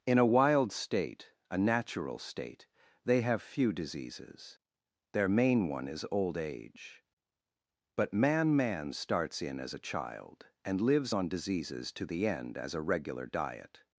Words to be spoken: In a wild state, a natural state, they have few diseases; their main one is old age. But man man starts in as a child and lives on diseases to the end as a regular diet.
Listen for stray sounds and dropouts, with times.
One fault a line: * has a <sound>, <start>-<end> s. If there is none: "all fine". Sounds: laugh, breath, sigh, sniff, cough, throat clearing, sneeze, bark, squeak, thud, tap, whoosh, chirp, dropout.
all fine